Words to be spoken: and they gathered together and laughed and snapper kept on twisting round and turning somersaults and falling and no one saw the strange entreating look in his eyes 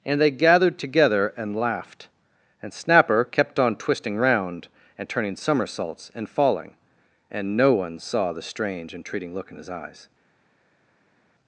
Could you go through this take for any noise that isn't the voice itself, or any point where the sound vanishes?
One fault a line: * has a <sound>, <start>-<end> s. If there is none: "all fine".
all fine